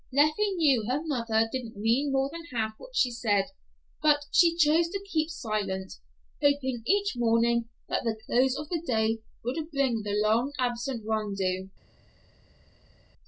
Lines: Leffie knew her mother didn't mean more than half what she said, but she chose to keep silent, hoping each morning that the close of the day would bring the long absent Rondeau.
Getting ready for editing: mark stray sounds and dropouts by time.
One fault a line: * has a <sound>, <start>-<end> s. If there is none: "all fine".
all fine